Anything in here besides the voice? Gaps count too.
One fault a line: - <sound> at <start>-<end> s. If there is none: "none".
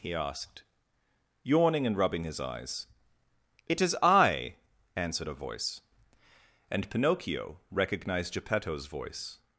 none